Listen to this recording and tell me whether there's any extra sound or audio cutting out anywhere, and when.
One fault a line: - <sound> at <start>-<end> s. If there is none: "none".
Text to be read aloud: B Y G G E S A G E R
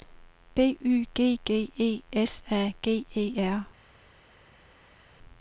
none